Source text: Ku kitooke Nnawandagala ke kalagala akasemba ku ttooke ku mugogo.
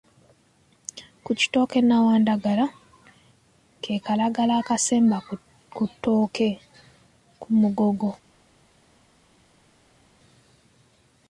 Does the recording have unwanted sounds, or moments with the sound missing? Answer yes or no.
no